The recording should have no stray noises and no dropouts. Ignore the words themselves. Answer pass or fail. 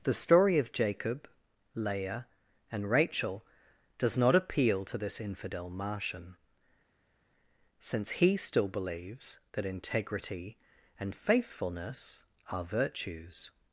pass